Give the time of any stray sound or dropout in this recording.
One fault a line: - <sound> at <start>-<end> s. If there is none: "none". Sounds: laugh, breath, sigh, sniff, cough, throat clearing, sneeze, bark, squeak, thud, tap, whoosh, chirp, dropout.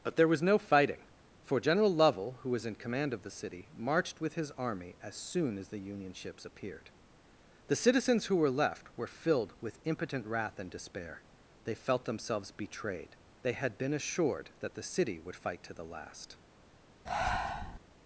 - breath at 17.1-17.8 s